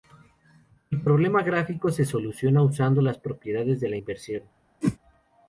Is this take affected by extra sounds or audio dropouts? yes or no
yes